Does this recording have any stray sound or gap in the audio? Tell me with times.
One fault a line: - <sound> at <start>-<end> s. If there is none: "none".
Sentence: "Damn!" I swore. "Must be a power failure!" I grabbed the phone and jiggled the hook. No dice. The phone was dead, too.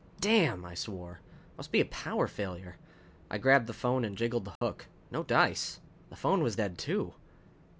- dropout at 4.6-4.6 s